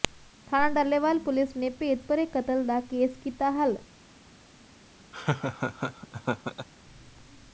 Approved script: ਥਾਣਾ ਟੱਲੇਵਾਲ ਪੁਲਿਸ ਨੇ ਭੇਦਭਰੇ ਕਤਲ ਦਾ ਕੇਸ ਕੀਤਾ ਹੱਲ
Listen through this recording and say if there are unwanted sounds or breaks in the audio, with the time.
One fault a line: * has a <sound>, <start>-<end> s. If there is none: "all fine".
* has a laugh, 5.1-6.7 s